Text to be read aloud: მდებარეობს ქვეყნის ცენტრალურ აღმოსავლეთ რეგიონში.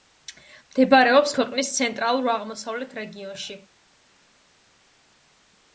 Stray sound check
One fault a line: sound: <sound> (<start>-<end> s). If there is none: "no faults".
no faults